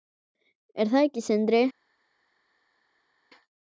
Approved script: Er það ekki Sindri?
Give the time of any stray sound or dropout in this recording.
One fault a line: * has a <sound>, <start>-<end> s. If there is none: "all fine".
all fine